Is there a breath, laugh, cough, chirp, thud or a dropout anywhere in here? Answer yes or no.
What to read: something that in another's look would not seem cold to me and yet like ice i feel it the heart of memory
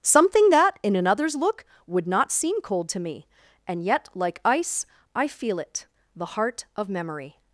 no